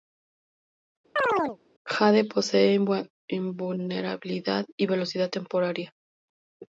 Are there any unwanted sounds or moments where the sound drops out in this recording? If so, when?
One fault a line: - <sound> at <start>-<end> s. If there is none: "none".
- chirp at 1.2-1.6 s